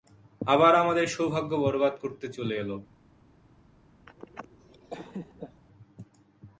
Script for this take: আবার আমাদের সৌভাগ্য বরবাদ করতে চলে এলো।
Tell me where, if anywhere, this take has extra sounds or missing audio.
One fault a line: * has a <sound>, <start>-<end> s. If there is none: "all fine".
* has a laugh, 4.1-5.6 s